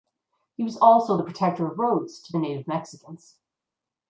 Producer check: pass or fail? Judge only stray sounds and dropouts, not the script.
pass